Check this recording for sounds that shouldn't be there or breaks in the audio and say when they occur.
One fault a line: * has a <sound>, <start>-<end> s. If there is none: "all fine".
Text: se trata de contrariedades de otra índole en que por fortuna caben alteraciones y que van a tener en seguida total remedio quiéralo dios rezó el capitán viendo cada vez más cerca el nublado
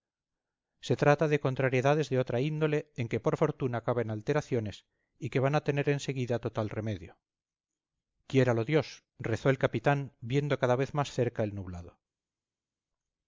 all fine